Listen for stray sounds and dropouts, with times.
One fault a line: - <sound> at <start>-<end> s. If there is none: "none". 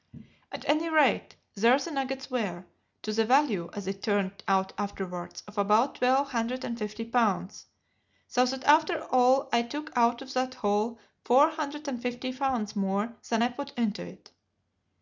none